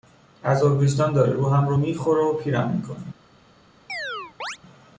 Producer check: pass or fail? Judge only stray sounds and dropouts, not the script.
fail